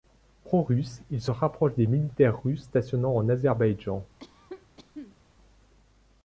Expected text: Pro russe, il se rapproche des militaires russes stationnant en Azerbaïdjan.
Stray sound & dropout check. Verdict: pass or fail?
fail